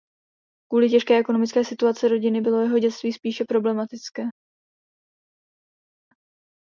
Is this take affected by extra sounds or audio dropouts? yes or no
no